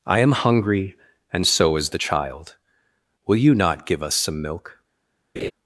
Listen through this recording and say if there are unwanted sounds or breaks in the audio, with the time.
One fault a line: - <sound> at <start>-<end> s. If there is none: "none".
- laugh at 5.4-5.5 s